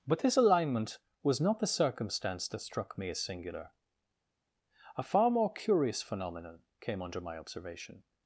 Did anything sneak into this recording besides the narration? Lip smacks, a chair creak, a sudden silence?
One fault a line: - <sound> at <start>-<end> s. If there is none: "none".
none